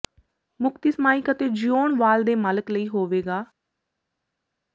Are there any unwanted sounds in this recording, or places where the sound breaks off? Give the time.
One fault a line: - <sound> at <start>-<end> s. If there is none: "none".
none